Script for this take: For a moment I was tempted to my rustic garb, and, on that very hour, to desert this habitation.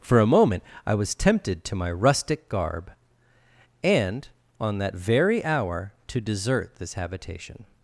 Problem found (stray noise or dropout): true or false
false